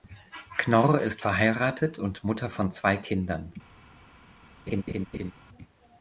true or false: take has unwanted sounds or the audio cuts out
true